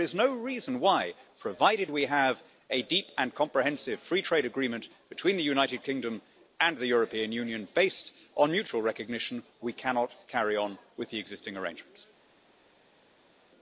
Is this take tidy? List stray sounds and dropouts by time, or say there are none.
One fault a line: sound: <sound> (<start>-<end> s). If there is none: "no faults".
no faults